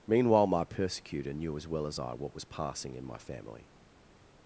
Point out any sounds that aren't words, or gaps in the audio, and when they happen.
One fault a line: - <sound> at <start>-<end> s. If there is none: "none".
none